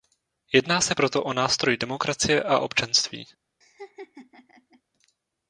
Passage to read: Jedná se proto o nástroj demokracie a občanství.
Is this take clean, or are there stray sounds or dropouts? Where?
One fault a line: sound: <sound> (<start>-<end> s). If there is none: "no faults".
sound: laugh (3.6-4.8 s)